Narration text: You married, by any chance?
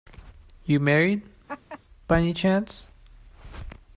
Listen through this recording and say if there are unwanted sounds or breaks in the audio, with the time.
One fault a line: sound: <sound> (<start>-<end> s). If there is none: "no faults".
sound: laugh (1.5-1.8 s)